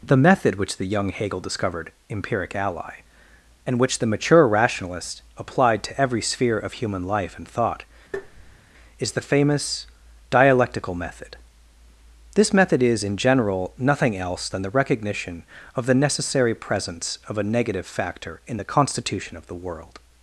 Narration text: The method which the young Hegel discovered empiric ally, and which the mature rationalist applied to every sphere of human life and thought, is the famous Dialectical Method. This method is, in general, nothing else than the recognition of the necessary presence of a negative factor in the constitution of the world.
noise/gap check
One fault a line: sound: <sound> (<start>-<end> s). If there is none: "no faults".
sound: tap (8.1-8.6 s)